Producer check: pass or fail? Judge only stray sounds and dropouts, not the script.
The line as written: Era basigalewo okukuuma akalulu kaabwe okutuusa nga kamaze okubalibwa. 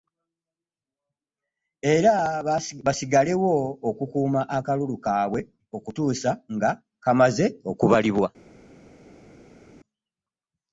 pass